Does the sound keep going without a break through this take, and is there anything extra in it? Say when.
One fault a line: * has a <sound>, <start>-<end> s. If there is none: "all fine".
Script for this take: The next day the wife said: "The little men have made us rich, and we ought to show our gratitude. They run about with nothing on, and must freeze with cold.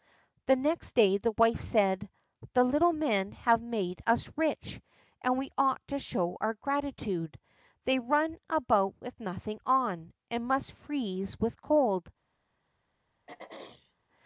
* has a throat clearing, 13.3-13.9 s